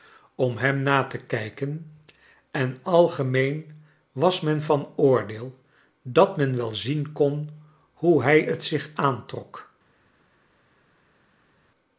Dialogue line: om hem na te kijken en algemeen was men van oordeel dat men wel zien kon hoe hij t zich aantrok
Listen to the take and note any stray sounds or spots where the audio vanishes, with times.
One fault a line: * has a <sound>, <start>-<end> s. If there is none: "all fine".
all fine